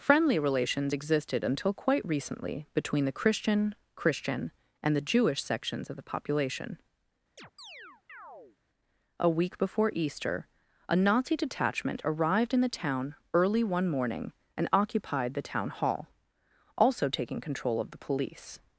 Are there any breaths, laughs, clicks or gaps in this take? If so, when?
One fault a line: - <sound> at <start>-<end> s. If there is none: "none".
- chirp at 7.4-8.6 s